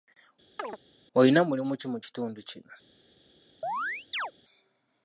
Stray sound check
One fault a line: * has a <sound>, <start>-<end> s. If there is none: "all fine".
* has a chirp, 0.6-0.8 s
* has a chirp, 3.6-4.3 s